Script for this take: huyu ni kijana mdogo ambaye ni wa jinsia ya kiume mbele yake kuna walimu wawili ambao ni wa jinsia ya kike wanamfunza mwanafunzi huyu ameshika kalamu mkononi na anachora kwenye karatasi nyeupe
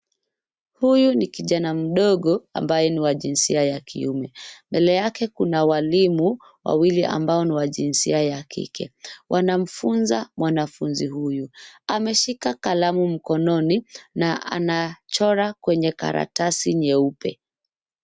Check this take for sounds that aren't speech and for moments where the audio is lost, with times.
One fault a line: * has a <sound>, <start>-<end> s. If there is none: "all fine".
all fine